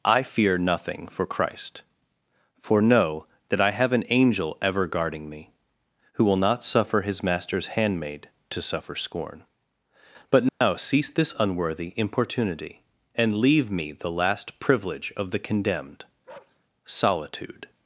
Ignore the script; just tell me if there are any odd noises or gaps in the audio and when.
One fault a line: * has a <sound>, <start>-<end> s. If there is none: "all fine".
* has a dropout, 10.5-10.6 s
* has a bark, 16.3-16.6 s